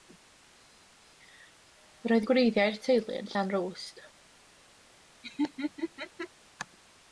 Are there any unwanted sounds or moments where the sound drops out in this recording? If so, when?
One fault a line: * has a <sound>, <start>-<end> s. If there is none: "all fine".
* has a laugh, 5.2-6.3 s